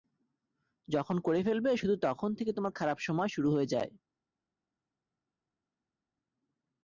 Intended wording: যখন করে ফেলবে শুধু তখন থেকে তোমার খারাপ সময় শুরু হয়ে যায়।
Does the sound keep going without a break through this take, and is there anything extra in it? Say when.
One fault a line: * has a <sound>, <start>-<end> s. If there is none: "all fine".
all fine